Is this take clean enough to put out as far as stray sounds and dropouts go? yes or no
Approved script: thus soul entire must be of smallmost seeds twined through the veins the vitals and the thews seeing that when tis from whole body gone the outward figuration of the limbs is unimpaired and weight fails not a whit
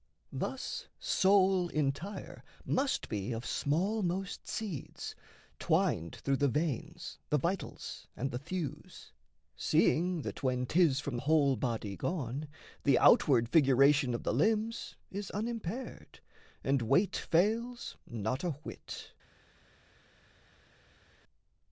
yes